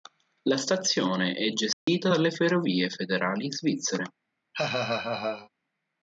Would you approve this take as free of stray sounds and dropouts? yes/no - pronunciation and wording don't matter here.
no